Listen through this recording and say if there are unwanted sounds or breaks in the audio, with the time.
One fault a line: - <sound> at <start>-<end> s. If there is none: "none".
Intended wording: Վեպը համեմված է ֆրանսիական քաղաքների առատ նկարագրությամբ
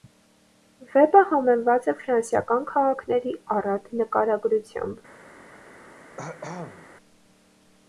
- cough at 6.2-6.9 s